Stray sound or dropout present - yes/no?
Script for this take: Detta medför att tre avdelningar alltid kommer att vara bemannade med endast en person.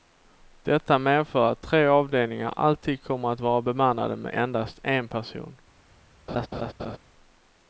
yes